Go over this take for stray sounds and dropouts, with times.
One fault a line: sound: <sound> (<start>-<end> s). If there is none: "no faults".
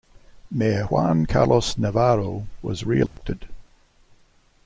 sound: dropout (3.1-3.2 s)